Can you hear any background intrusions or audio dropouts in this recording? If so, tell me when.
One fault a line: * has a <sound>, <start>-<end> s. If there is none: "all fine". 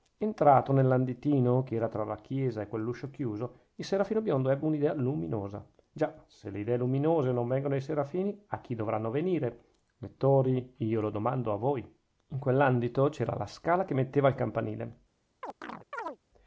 * has a chirp, 15.4-16.2 s